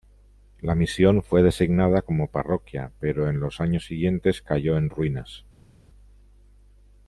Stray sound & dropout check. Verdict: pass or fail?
pass